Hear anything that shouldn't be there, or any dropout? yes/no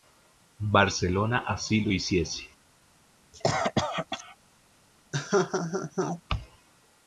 yes